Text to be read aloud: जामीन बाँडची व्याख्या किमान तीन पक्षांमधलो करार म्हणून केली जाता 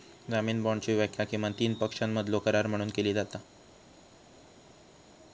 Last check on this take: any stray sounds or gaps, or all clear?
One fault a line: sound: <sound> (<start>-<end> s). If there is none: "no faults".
no faults